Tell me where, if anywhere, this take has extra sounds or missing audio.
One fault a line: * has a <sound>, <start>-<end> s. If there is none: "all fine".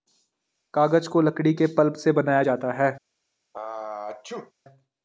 * has a sneeze, 3.5-4.5 s